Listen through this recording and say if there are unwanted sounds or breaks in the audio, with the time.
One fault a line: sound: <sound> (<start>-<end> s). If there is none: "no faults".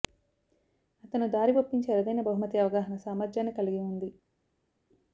no faults